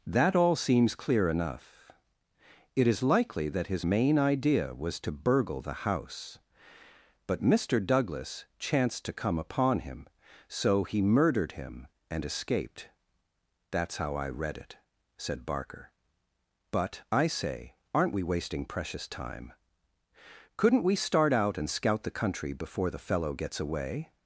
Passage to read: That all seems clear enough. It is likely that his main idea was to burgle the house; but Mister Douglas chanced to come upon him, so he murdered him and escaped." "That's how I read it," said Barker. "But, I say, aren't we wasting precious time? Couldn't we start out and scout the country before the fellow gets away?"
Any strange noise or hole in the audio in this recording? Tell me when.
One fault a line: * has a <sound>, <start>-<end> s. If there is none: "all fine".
all fine